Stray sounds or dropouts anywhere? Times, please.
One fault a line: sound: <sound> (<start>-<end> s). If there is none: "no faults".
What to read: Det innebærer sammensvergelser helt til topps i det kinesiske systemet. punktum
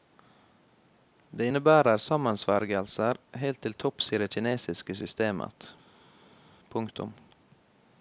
no faults